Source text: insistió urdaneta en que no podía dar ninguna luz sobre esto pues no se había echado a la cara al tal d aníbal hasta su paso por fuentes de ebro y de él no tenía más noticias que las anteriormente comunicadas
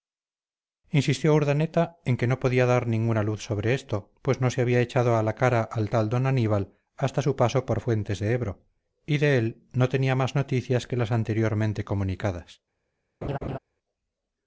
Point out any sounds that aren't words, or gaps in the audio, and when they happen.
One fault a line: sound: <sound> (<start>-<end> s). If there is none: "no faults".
sound: laugh (13.2-13.6 s)